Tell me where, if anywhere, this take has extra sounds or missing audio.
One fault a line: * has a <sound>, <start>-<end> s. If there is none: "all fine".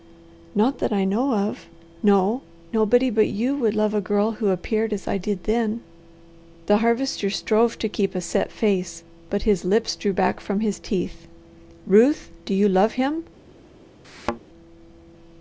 * has a thud, 14.0-14.4 s